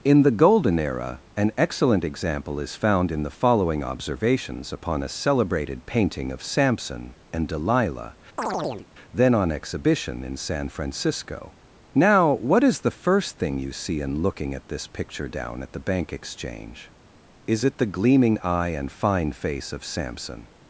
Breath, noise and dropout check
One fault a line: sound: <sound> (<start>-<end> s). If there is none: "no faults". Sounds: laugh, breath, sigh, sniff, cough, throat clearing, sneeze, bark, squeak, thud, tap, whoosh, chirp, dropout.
sound: chirp (8.4-8.9 s)